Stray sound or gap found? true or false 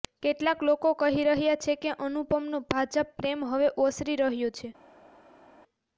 false